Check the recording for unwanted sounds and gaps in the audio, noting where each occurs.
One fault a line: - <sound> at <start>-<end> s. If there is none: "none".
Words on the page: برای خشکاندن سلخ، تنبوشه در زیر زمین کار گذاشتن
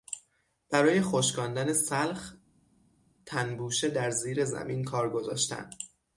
none